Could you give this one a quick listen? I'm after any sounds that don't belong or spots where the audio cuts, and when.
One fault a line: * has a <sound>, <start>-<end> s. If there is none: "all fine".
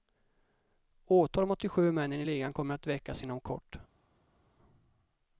all fine